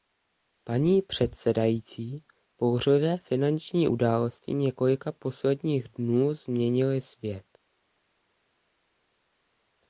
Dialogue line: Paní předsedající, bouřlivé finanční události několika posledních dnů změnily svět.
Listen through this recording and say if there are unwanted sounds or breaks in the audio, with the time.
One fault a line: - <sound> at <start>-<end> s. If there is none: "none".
none